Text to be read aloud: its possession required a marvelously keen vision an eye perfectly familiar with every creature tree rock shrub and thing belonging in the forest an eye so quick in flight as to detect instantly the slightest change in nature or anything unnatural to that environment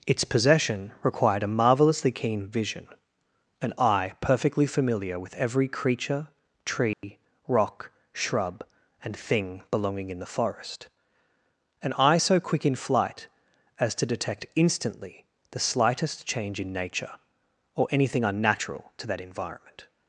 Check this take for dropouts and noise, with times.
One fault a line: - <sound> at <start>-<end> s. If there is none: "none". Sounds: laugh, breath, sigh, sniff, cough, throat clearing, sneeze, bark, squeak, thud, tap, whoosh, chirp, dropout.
- dropout at 6.9-7.0 s